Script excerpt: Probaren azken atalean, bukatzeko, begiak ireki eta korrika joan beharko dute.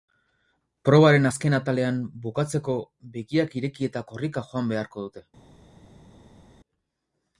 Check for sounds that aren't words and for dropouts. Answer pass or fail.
pass